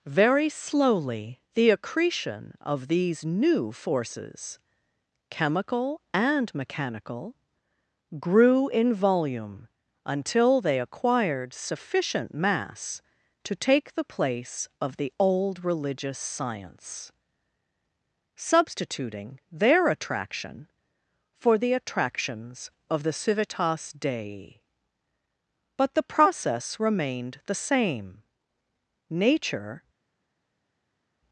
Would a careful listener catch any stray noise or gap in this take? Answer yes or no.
no